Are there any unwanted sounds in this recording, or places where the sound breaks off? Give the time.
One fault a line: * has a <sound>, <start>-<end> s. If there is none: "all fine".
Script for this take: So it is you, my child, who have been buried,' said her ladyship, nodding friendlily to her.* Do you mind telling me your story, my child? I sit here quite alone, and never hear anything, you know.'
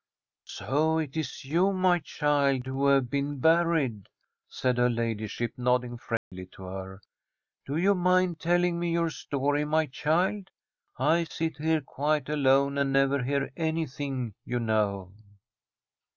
* has a dropout, 6.2-6.3 s